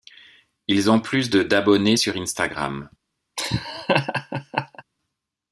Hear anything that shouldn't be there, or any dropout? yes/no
yes